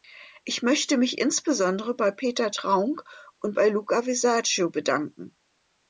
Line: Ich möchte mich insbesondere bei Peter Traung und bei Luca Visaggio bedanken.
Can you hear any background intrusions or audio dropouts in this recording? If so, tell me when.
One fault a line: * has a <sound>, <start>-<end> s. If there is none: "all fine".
all fine